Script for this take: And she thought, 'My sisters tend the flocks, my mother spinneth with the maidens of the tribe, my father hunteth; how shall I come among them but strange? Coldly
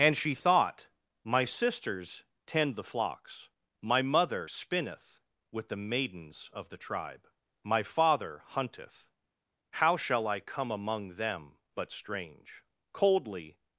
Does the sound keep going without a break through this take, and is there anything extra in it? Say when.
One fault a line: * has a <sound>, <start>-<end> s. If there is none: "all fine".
all fine